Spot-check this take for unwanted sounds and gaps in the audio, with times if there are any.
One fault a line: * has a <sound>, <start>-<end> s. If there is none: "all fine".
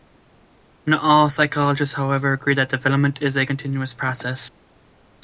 all fine